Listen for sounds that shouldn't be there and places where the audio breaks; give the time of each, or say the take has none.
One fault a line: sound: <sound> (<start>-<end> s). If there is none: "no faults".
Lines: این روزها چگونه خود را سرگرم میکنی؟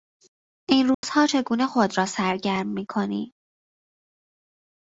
sound: dropout (0.9-1.0 s)